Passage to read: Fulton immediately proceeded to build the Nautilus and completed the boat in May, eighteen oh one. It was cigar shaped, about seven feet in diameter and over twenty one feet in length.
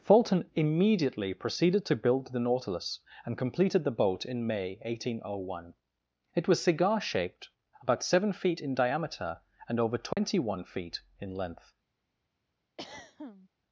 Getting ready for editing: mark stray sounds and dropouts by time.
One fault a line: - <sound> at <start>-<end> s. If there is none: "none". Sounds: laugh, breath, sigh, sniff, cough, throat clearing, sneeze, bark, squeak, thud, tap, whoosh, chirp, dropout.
- dropout at 10.1-10.2 s
- throat clearing at 12.8-13.5 s